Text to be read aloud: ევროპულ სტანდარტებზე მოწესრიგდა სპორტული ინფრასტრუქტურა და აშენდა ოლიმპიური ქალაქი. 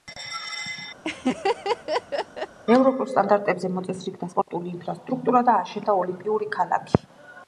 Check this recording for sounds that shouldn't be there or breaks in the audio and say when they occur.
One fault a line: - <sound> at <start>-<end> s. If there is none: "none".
- laugh at 1.0-2.6 s